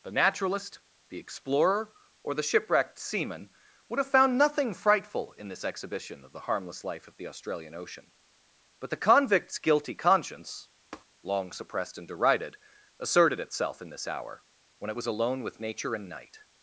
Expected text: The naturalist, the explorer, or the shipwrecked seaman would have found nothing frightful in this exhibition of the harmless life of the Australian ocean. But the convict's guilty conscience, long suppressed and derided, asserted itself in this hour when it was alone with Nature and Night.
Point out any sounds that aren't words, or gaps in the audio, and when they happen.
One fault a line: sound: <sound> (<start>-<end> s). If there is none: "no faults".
sound: tap (10.9-11.0 s)